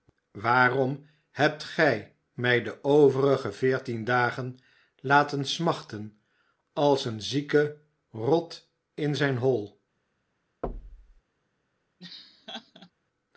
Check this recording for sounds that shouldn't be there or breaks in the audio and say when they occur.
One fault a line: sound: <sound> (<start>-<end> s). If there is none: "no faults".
sound: thud (10.6-11.2 s)
sound: laugh (12.0-12.9 s)